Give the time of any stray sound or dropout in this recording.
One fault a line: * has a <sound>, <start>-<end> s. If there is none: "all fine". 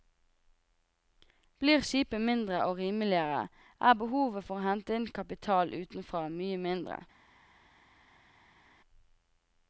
all fine